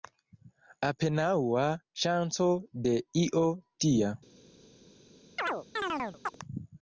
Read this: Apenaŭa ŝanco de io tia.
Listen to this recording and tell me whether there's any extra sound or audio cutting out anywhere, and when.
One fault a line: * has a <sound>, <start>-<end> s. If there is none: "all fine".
* has a chirp, 5.4-6.4 s